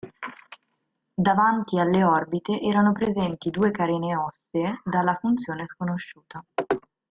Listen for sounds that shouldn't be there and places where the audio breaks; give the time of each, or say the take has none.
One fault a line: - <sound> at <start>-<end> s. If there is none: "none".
none